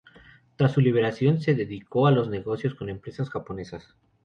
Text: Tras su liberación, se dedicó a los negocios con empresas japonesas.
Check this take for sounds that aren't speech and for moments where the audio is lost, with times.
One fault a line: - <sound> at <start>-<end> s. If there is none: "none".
none